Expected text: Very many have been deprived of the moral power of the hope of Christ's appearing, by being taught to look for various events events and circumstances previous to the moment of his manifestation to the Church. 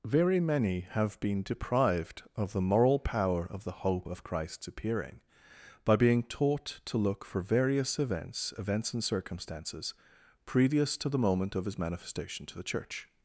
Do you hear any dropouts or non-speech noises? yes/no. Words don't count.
no